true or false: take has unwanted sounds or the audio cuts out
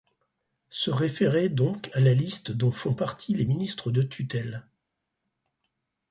false